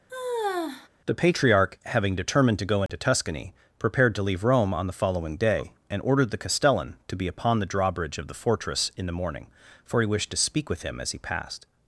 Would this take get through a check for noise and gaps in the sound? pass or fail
fail